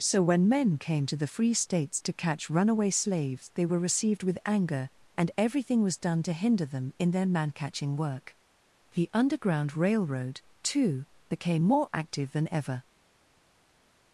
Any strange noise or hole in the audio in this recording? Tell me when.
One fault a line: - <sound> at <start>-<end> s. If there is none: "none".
none